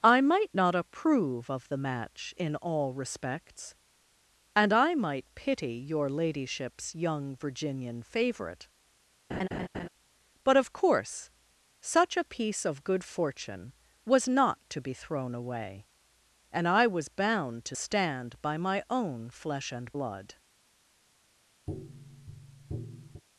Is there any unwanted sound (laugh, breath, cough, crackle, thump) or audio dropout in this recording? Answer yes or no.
yes